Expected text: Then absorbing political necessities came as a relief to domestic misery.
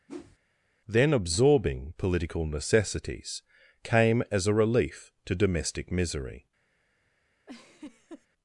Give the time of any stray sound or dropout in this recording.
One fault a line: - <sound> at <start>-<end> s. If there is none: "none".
- whoosh at 0.1-0.4 s
- laugh at 7.5-8.3 s